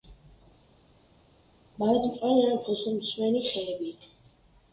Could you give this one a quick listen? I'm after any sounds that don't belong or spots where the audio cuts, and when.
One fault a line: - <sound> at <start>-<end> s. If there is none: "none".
none